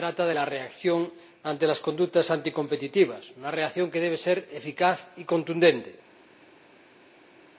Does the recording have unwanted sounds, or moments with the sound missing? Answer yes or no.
no